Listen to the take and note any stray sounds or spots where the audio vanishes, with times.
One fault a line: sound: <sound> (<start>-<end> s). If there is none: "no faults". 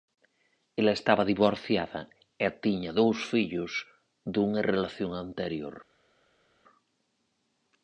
no faults